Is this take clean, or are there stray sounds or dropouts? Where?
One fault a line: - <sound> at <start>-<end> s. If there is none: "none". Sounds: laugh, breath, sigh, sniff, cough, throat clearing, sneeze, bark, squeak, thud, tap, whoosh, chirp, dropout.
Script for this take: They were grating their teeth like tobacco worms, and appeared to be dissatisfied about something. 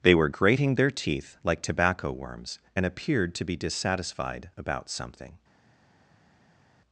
none